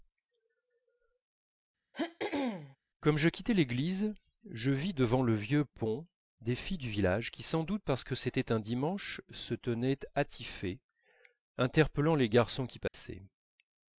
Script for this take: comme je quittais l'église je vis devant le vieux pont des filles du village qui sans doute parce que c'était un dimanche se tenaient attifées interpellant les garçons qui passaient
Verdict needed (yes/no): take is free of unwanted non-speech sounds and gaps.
no